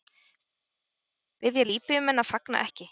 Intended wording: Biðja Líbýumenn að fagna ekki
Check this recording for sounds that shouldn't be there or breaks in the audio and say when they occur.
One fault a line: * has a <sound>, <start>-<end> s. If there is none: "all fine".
all fine